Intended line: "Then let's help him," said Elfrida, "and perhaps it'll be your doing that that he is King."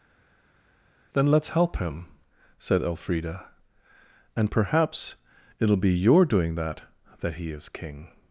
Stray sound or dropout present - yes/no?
no